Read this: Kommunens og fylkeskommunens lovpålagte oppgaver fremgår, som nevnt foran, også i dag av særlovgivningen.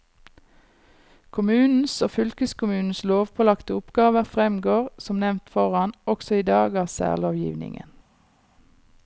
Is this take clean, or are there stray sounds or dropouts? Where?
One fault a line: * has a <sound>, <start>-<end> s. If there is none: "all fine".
all fine